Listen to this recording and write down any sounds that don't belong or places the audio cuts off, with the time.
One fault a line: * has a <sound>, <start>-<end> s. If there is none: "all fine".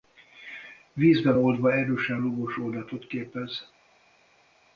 all fine